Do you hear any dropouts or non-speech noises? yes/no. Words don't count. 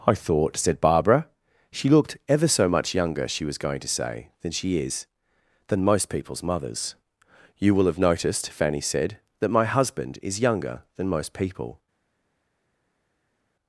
no